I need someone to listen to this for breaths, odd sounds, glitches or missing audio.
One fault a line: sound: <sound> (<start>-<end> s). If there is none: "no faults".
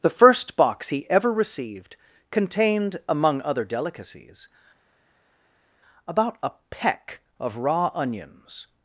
no faults